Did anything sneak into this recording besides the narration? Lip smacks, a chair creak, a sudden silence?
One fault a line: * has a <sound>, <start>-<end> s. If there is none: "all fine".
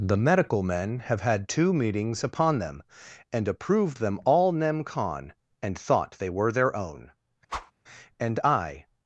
* has a whoosh, 7.5-7.7 s